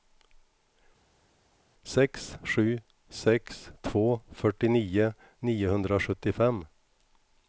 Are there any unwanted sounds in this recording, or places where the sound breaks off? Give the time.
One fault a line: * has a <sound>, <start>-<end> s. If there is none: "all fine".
all fine